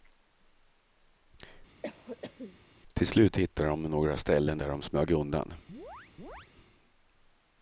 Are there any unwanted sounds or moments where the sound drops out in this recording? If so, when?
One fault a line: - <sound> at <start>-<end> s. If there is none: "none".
- cough at 1.8-2.6 s
- chirp at 5.7-6.5 s